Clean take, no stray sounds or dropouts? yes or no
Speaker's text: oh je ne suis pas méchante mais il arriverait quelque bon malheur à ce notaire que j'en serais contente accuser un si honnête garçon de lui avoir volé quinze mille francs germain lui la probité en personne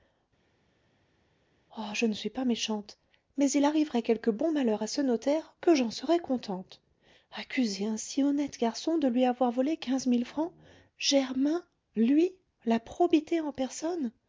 yes